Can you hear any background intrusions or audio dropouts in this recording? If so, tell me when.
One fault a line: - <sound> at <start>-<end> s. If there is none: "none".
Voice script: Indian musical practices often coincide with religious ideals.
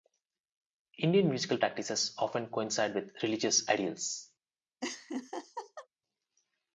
- laugh at 4.8-5.9 s